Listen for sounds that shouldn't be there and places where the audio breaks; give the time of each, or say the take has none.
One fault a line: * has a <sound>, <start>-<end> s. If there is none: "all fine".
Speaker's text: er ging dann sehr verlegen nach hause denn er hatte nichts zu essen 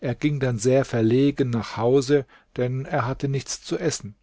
all fine